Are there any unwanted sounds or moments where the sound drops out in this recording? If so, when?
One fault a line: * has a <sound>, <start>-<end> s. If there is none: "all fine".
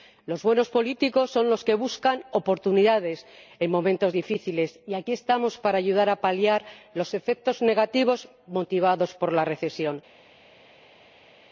all fine